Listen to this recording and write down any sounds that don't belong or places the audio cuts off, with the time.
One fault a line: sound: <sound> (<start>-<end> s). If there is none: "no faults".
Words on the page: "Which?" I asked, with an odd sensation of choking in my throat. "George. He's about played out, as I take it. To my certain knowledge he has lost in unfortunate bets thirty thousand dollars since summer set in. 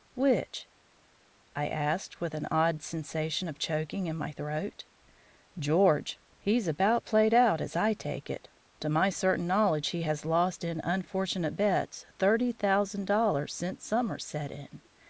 no faults